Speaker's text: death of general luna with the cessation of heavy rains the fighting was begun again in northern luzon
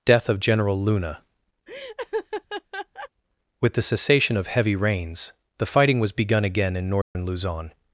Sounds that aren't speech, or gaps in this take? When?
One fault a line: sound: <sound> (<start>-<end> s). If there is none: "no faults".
sound: laugh (1.7-3.1 s)
sound: dropout (7.0-7.2 s)